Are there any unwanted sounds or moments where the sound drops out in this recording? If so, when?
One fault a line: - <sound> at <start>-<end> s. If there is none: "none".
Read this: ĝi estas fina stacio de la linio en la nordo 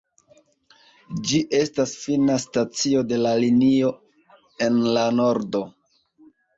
none